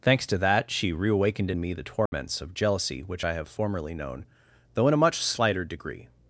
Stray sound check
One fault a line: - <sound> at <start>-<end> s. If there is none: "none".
- dropout at 2.1-2.1 s